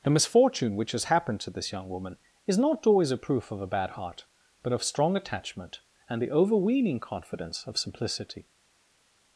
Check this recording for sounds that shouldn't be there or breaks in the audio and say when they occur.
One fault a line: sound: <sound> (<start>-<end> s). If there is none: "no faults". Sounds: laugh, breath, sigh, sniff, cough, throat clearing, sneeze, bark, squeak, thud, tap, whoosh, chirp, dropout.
no faults